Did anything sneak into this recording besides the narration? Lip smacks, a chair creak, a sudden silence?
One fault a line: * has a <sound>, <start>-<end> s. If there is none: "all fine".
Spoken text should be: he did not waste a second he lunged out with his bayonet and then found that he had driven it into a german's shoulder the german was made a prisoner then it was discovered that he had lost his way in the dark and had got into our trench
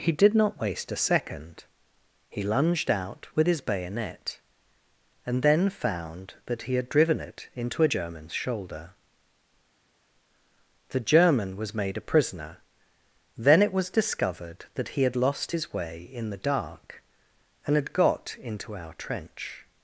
all fine